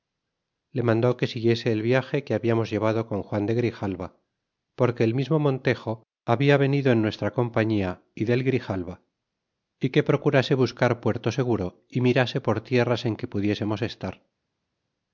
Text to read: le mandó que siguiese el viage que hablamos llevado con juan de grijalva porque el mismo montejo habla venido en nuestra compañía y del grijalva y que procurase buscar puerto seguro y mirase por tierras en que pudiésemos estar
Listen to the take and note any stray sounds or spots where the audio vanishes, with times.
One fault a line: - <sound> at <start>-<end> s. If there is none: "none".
none